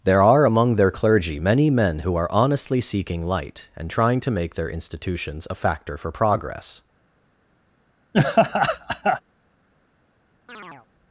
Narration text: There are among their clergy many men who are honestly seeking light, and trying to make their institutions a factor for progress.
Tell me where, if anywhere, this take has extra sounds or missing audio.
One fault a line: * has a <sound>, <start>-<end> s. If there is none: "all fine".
* has a laugh, 8.1-9.2 s
* has a chirp, 10.5-10.9 s